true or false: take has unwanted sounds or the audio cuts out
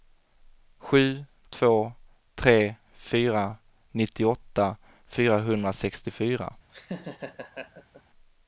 true